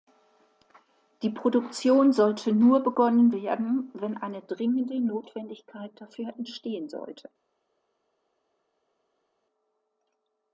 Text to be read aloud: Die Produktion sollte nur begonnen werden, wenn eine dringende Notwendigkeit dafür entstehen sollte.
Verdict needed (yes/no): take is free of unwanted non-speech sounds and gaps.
yes